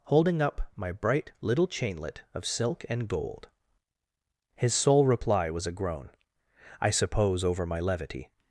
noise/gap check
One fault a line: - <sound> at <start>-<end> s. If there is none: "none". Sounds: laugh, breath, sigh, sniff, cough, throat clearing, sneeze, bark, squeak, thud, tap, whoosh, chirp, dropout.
none